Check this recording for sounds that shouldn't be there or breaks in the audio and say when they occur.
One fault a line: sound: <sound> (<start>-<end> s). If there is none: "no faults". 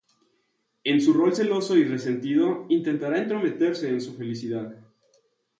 no faults